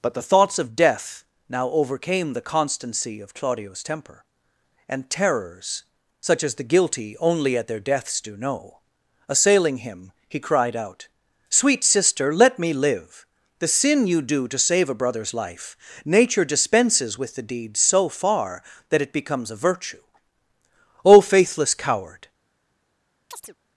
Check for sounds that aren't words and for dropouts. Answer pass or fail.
fail